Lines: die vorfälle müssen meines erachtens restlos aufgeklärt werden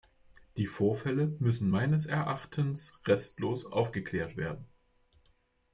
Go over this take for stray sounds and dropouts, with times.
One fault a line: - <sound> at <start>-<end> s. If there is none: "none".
none